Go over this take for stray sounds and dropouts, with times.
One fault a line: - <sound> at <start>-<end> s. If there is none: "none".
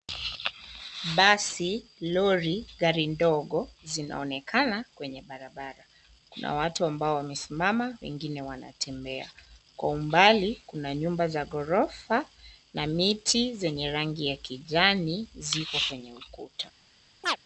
- chirp at 17.2-17.4 s